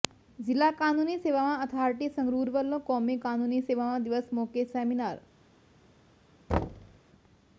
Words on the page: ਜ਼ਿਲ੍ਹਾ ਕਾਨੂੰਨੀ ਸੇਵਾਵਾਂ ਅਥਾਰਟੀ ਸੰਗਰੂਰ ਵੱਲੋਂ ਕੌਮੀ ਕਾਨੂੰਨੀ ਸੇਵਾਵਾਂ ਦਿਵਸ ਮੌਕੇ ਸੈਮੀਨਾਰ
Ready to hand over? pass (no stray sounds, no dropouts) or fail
fail